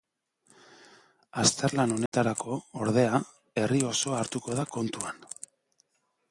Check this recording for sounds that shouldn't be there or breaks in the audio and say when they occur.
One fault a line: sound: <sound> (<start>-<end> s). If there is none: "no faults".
sound: dropout (2.1-2.1 s)